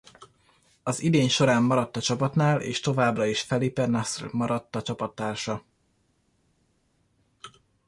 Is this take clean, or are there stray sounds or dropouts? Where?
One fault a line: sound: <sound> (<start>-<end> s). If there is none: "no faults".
no faults